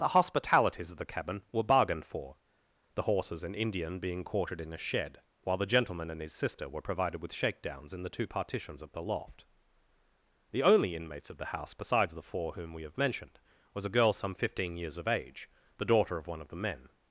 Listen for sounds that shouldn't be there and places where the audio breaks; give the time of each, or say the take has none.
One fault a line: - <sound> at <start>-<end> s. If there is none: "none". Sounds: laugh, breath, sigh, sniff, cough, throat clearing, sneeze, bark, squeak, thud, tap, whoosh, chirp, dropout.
none